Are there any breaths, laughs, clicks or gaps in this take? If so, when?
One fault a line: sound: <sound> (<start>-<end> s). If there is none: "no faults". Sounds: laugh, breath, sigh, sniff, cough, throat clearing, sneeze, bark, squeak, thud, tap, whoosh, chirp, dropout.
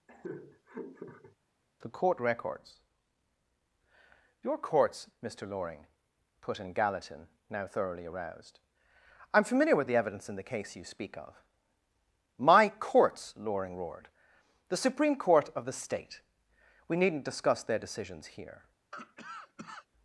sound: laugh (0.1-1.4 s)
sound: cough (18.9-19.9 s)